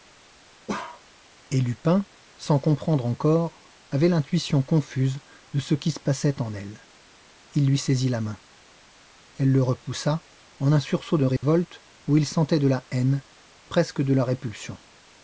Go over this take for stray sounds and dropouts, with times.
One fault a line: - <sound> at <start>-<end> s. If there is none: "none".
- bark at 0.7-1.0 s
- dropout at 11.4-11.4 s